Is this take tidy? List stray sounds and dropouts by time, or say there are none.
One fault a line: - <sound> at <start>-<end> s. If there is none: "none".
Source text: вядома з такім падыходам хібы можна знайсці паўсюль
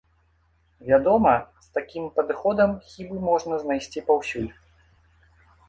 none